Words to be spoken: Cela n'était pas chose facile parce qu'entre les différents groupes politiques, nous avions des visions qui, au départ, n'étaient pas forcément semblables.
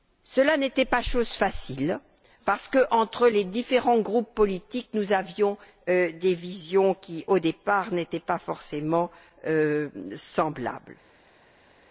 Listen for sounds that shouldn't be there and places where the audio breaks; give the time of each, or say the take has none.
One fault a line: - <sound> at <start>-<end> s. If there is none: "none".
none